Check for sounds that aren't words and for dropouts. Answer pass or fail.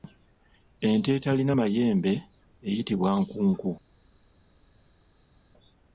pass